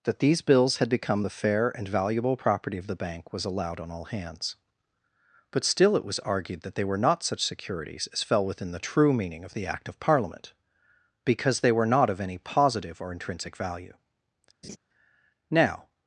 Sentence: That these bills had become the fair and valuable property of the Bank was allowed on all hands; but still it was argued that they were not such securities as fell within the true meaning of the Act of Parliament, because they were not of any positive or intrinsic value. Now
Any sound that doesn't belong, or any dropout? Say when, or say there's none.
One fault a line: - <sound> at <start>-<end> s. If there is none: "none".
- laugh at 14.6-14.8 s